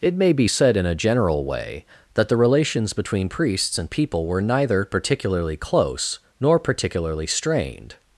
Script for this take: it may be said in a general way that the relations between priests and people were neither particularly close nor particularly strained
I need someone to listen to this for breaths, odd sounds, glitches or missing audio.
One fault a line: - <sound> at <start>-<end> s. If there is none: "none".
none